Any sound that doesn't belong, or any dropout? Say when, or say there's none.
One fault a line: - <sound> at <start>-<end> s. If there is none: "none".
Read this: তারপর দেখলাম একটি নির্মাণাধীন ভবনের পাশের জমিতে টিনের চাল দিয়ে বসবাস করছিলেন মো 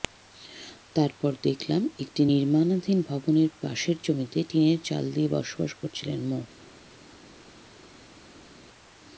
none